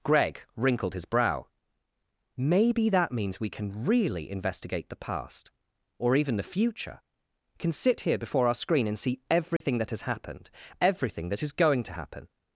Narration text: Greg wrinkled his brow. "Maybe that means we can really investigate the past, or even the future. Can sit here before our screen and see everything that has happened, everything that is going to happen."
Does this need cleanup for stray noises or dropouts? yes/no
yes